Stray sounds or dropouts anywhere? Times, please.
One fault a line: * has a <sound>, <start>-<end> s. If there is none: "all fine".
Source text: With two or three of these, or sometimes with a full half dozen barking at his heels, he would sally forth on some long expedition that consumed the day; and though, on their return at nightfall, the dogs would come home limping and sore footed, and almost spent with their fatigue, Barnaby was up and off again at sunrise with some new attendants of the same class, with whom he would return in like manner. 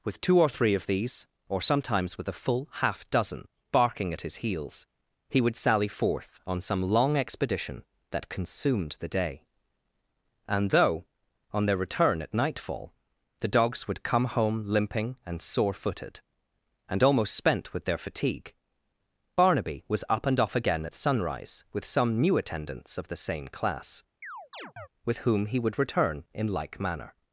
* has a chirp, 24.2-24.9 s